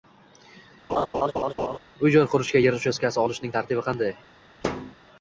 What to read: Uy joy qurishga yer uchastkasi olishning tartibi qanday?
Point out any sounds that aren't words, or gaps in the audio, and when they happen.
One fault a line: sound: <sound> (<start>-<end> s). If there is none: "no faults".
sound: laugh (0.9-1.8 s)
sound: thud (4.6-4.9 s)